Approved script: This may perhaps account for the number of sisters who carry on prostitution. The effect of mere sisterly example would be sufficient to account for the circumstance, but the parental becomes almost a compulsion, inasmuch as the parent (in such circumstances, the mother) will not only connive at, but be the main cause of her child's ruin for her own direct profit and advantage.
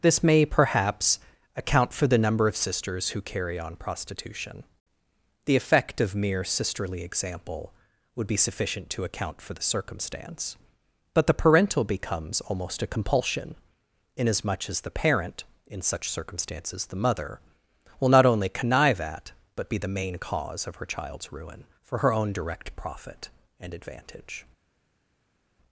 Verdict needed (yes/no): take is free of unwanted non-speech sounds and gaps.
yes